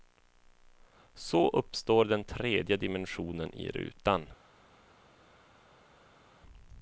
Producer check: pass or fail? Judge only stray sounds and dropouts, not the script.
pass